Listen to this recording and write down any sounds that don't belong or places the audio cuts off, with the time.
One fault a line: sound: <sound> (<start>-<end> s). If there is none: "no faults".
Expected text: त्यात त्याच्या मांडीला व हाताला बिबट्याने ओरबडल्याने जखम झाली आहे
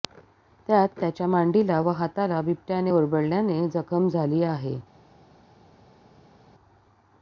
no faults